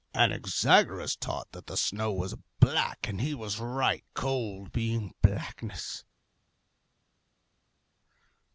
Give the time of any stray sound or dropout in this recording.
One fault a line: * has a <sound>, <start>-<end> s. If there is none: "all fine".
all fine